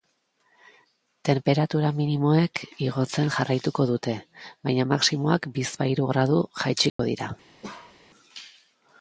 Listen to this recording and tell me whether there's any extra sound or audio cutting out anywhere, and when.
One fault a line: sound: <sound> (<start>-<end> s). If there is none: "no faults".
sound: dropout (6.9-7.0 s)
sound: bark (7.6-8.0 s)